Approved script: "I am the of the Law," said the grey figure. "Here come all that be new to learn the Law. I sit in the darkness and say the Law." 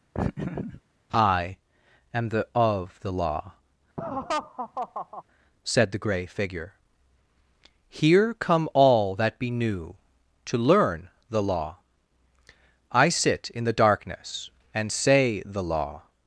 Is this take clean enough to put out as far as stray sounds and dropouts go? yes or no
no